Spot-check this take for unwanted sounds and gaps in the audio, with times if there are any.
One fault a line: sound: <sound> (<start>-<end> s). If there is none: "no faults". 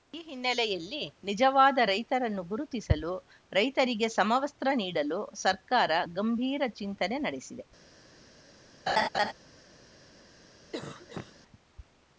sound: laugh (8.9-9.3 s)
sound: cough (10.7-11.4 s)